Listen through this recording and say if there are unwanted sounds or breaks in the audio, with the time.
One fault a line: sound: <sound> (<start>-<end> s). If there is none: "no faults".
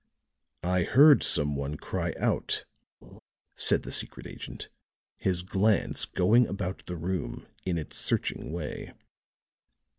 sound: laugh (3.0-3.2 s)